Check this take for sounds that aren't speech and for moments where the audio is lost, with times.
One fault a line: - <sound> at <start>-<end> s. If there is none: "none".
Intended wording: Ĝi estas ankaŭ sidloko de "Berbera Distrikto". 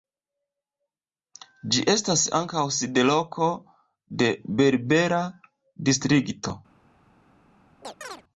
- chirp at 7.8-8.2 s